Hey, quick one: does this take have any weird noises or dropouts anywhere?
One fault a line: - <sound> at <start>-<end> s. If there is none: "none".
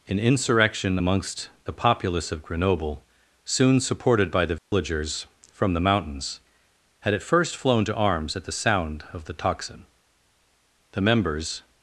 - dropout at 4.6-4.7 s